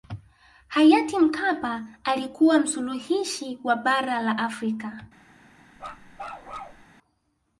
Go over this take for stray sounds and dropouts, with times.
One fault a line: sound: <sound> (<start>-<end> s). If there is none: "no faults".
sound: bark (5.8-6.8 s)